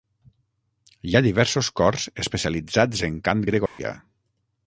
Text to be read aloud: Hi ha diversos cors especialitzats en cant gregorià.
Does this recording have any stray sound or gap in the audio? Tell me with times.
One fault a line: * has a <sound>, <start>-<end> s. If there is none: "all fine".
* has a dropout, 3.7-3.8 s